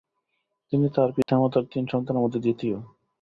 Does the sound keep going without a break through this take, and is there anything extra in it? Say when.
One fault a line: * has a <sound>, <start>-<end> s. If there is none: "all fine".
* has a dropout, 1.2-1.3 s